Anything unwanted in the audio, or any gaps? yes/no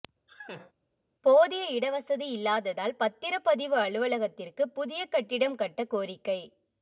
yes